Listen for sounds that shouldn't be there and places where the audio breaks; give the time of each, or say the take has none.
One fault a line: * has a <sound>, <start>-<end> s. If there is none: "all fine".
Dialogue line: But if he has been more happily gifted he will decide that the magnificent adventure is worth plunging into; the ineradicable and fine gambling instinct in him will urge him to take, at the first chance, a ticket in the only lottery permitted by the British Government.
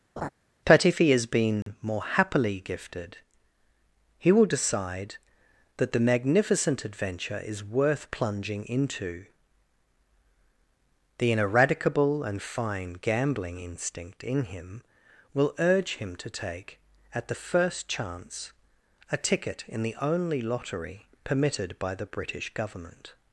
* has a laugh, 0.2-0.3 s
* has a dropout, 1.6-1.7 s